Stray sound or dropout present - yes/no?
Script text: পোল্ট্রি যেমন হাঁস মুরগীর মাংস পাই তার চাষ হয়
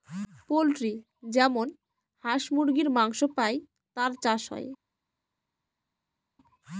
no